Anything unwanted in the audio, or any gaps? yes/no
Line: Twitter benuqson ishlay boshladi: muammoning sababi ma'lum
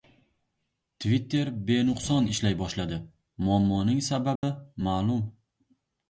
yes